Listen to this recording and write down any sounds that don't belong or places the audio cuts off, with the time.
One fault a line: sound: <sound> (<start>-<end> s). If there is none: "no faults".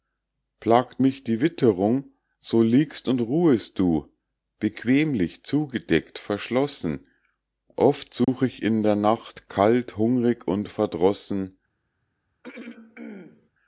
sound: dropout (8.2-8.3 s)
sound: throat clearing (12.4-13.5 s)